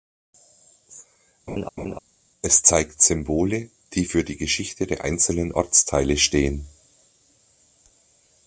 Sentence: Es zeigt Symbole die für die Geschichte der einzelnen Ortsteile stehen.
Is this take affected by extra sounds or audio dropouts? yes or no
yes